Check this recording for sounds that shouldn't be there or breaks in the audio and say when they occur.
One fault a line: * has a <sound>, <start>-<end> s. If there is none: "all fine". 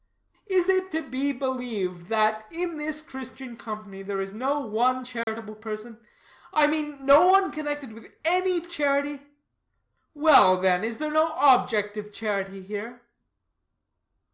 * has a dropout, 5.2-5.3 s